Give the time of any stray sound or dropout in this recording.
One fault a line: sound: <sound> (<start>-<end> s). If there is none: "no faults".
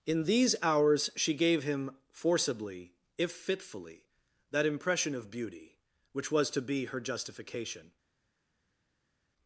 no faults